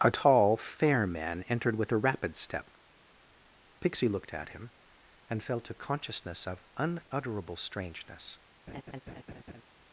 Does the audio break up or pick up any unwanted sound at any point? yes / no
yes